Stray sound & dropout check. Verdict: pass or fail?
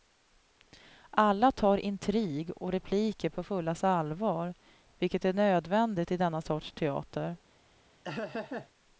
fail